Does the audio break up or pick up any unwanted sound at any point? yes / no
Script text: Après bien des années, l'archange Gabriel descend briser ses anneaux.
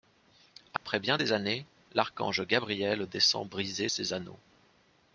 yes